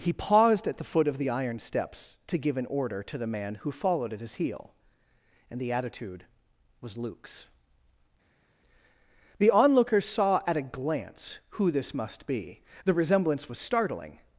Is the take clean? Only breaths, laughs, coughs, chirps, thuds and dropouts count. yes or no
yes